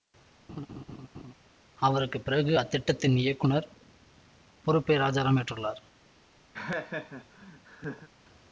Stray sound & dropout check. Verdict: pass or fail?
fail